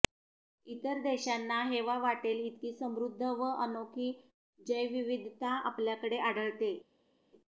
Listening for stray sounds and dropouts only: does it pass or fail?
pass